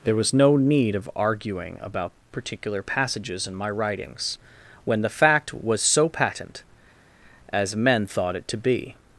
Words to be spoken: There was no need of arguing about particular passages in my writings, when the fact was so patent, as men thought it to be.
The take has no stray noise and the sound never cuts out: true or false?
true